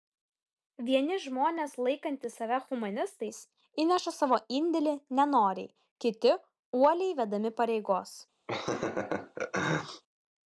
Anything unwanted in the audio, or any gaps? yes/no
yes